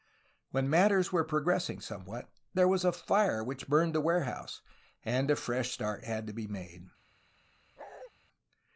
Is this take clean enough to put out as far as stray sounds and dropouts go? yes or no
no